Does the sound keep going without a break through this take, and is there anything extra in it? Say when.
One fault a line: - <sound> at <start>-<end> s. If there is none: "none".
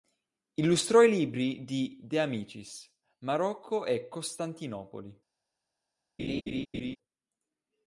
- laugh at 6.2-7.0 s